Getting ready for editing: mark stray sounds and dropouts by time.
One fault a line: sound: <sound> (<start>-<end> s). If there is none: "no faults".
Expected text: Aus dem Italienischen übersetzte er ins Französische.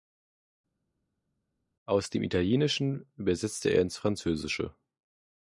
no faults